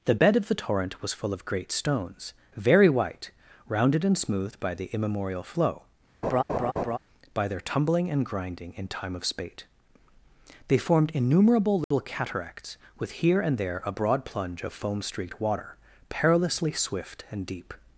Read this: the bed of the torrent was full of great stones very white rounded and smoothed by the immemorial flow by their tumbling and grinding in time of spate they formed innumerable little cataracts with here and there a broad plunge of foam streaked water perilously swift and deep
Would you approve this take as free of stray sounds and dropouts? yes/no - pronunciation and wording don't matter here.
no